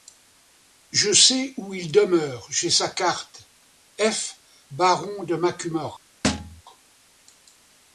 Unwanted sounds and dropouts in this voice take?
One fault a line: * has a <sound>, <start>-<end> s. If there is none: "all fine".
* has a thud, 6.2-6.6 s